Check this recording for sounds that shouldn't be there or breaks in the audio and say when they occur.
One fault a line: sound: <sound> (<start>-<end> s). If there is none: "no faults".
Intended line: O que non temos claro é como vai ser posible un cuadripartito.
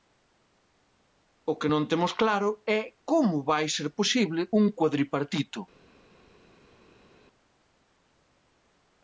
no faults